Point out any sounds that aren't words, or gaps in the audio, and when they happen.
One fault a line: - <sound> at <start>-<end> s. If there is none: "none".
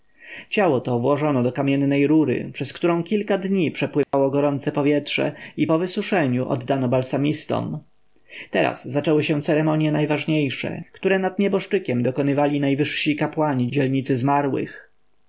- dropout at 4.0-4.1 s